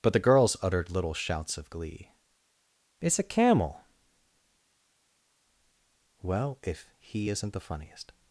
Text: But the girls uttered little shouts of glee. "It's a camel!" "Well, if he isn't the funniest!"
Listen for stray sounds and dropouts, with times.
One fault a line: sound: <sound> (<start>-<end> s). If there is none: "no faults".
no faults